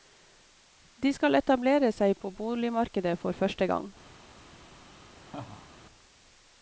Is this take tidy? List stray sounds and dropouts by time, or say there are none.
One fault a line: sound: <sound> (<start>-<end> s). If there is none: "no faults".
sound: laugh (5.3-5.7 s)